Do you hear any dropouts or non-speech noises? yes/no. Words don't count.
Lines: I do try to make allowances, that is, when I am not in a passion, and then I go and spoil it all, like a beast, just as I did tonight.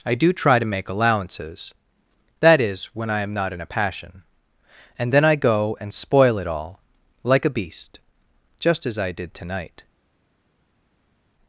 no